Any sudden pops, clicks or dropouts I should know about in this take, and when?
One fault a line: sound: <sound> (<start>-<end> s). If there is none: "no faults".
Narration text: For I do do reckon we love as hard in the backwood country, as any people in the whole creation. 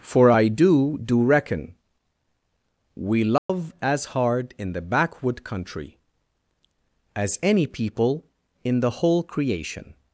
sound: dropout (3.4-3.5 s)